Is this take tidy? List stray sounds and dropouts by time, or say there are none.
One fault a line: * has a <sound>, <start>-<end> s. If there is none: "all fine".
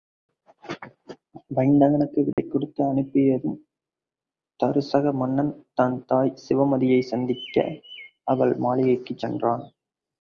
* has a dropout, 2.3-2.4 s